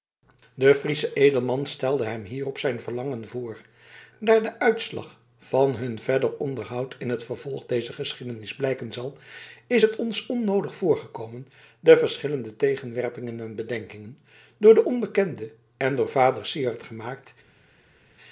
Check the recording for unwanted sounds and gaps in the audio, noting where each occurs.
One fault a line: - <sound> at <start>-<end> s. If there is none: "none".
none